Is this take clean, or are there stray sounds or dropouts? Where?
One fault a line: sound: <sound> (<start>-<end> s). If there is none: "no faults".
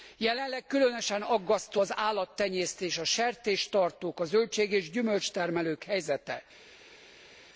no faults